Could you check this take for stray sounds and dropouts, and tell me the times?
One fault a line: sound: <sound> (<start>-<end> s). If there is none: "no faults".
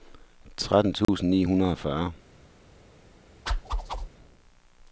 sound: dropout (1.0-1.1 s)
sound: whoosh (3.5-4.1 s)